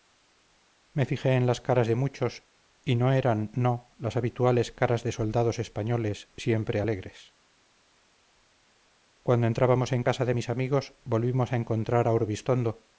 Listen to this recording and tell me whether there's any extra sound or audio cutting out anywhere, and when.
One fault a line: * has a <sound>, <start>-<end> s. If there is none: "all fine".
all fine